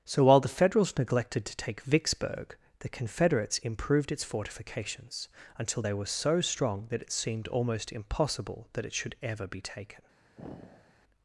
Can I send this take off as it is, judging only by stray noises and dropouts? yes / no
no